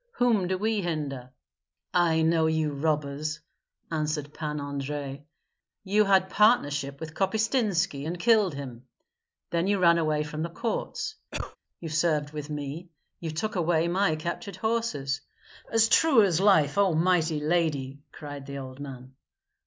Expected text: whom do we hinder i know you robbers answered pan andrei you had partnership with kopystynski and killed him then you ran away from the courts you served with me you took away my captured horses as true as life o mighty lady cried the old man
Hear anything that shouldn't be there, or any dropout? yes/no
yes